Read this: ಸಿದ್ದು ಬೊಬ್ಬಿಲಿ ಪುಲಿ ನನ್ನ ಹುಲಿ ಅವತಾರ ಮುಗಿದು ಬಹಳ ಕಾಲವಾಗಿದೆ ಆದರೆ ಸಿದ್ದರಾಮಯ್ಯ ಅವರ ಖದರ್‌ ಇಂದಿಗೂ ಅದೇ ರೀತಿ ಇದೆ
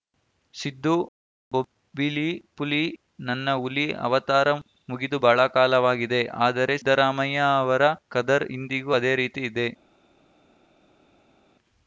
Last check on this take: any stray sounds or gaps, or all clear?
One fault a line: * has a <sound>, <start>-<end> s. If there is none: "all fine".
all fine